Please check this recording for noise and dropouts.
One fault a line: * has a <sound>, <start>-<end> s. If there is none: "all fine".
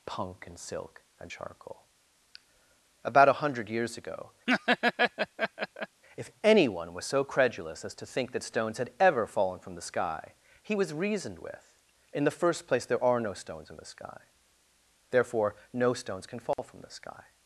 * has a laugh, 4.5-6.0 s
* has a dropout, 16.5-16.6 s